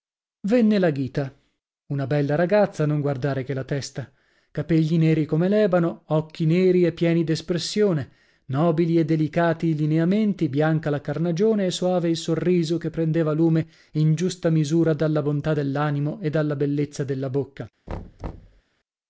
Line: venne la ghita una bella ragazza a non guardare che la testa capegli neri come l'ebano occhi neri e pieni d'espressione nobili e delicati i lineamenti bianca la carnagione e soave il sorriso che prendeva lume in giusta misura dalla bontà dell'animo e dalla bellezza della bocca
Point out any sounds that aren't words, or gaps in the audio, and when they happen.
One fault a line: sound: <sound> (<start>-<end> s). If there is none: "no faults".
sound: thud (17.9-18.6 s)